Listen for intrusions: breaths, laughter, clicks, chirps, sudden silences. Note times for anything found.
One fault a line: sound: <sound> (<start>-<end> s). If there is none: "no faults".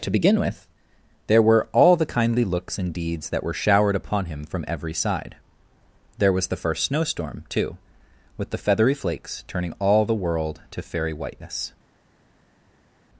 no faults